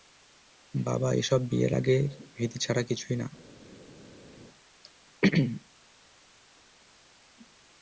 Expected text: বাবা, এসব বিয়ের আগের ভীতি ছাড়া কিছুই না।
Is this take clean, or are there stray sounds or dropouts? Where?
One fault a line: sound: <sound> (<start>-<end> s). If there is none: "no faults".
no faults